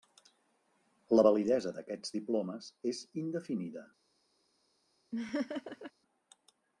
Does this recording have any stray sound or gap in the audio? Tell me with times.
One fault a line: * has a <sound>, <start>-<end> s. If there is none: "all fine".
* has a laugh, 5.1-5.9 s